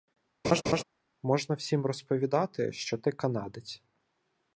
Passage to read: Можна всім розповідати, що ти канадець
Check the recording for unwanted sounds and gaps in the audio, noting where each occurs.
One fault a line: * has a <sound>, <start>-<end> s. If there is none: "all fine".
* has a laugh, 0.4-0.8 s